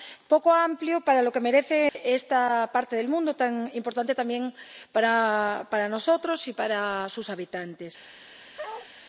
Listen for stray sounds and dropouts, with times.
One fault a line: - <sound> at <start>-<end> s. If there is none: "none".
- dropout at 1.9-2.0 s
- bark at 8.6-8.9 s